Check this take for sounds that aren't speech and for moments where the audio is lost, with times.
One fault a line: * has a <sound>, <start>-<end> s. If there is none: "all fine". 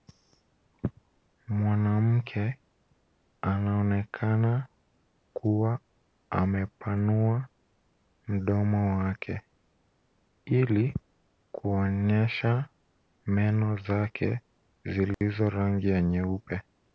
* has a dropout, 15.1-15.2 s